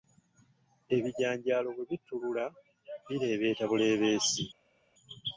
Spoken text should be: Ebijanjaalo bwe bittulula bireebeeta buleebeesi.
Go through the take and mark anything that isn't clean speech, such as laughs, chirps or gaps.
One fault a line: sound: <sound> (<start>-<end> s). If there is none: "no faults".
no faults